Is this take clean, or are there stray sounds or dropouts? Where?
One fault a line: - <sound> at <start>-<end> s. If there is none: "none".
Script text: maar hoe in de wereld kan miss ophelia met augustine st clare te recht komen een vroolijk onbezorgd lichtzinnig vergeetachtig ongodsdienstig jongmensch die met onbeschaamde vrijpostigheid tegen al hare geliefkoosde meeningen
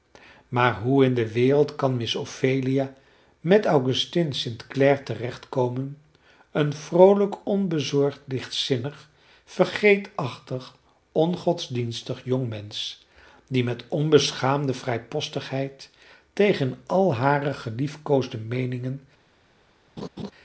- laugh at 20.0-20.3 s